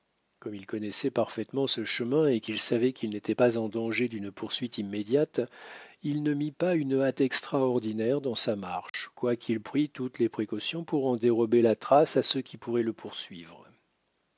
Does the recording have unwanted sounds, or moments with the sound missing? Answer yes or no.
yes